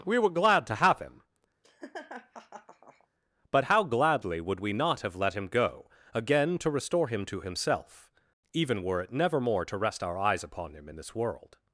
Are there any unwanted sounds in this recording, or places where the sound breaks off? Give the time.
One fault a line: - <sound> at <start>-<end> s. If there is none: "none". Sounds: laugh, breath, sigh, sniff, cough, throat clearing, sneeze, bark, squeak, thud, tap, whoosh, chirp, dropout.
- laugh at 1.6-3.1 s